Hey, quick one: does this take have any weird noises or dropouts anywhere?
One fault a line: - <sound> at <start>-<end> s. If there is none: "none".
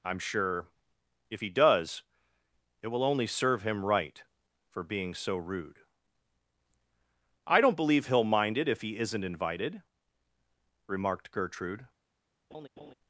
- laugh at 12.5-12.9 s